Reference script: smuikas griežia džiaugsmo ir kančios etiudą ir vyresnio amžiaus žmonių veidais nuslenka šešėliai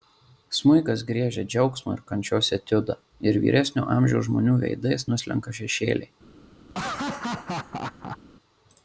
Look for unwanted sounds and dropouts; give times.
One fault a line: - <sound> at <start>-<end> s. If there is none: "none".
- laugh at 6.7-8.2 s